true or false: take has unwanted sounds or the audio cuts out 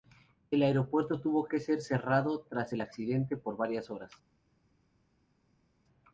false